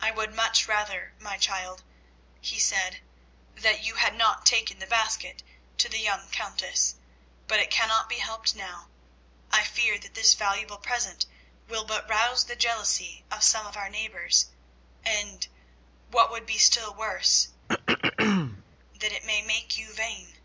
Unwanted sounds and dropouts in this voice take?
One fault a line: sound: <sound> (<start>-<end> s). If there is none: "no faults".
sound: throat clearing (17.7-18.6 s)